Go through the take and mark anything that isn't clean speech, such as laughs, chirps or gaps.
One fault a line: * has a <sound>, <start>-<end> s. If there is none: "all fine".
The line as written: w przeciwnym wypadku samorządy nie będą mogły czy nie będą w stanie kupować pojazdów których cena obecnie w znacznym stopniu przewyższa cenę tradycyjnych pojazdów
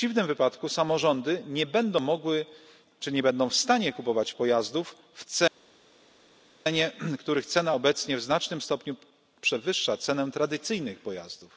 all fine